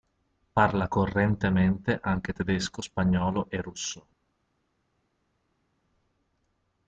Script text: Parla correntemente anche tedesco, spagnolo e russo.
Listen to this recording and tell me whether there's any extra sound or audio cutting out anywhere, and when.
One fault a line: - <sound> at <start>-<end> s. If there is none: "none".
none